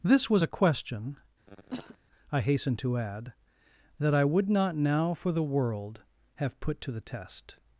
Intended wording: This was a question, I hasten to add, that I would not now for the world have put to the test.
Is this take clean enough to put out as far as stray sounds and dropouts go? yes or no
no